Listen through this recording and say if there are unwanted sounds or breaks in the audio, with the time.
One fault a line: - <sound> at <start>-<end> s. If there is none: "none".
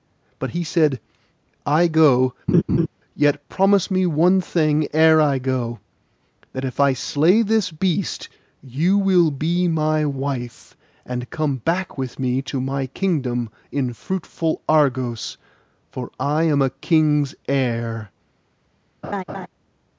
- laugh at 2.5-2.9 s
- laugh at 19.0-19.5 s